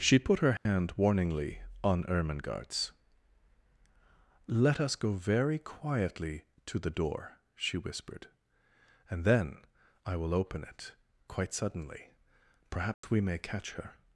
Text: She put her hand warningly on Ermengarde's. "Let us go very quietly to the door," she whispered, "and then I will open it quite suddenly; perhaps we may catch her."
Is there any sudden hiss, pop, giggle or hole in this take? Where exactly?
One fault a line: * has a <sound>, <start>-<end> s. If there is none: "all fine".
* has a dropout, 0.6-0.7 s
* has a dropout, 12.9-13.0 s